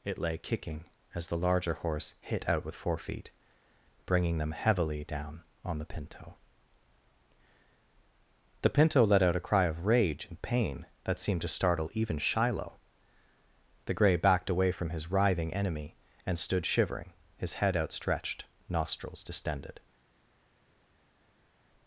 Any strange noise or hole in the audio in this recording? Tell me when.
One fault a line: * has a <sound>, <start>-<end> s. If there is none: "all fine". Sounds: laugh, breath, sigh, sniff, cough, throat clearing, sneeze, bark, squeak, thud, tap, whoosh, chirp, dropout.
all fine